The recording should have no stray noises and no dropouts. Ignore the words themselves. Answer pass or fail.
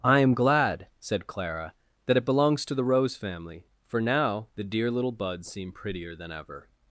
pass